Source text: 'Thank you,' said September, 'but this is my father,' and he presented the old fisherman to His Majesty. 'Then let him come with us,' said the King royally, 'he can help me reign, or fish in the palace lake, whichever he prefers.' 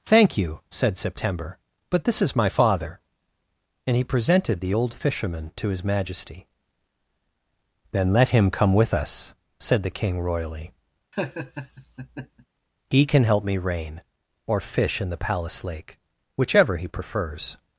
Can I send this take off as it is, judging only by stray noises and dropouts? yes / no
no